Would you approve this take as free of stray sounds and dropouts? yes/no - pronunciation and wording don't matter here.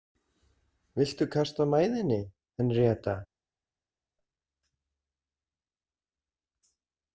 yes